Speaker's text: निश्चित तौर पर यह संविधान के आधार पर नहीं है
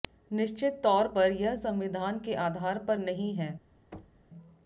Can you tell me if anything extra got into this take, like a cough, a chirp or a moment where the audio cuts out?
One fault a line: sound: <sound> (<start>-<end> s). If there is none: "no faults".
sound: thud (3.9-4.3 s)